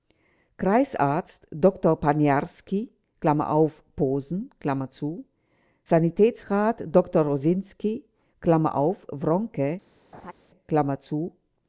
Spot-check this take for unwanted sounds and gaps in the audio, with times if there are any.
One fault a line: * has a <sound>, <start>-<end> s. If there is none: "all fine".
* has a laugh, 10.1-10.3 s